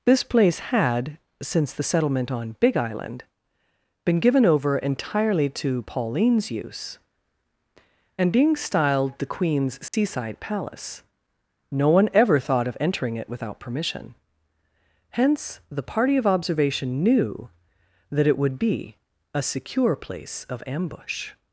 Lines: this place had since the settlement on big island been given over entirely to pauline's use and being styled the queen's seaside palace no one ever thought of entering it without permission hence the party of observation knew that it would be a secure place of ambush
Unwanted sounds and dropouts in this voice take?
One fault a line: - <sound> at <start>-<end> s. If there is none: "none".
- dropout at 9.9-9.9 s